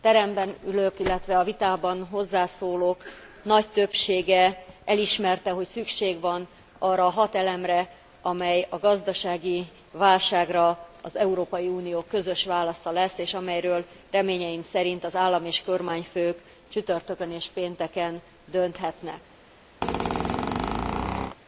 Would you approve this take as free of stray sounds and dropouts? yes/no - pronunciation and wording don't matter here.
no